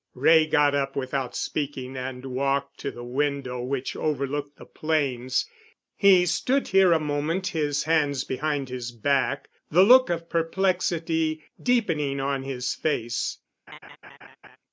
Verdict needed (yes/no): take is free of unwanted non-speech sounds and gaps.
no